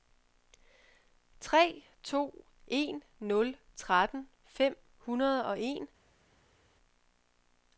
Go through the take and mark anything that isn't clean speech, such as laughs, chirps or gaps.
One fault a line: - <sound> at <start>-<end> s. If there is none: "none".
none